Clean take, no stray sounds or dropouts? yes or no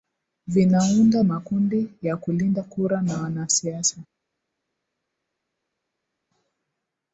yes